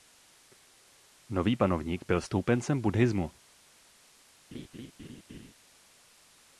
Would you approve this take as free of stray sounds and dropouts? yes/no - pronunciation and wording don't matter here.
no